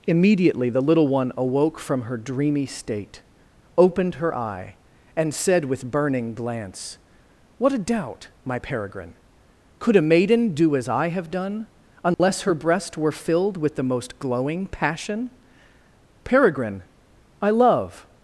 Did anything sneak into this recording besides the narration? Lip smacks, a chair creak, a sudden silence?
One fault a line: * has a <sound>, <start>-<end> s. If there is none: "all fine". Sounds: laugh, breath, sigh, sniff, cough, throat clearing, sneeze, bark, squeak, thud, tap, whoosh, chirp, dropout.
* has a dropout, 12.1-12.2 s